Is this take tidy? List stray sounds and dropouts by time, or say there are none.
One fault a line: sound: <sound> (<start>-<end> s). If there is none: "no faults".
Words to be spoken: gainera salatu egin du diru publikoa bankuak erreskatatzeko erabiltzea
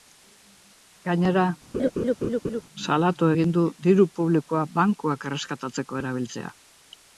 sound: laugh (1.7-2.6 s)